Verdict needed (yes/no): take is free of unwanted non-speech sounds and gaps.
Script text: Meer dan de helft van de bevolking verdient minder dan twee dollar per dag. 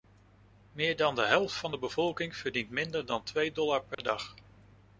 no